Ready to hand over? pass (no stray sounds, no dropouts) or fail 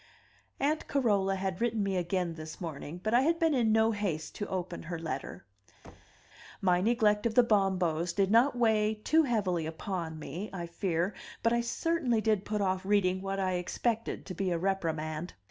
fail